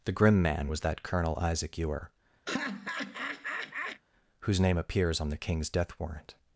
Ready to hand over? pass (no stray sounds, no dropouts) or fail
fail